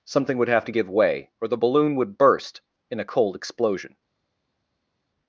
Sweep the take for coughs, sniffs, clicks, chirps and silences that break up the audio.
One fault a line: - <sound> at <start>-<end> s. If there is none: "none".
none